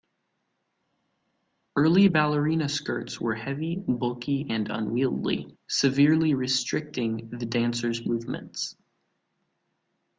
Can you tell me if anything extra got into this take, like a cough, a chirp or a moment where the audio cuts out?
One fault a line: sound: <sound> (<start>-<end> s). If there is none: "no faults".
no faults